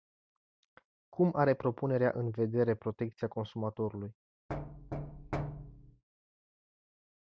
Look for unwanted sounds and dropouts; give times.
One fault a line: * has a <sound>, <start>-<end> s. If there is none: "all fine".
* has a thud, 4.5-6.0 s